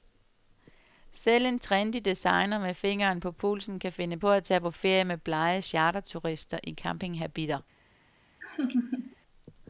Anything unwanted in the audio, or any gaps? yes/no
yes